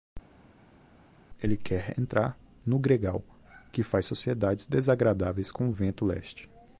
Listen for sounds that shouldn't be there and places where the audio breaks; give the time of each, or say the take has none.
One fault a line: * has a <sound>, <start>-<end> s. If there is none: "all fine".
all fine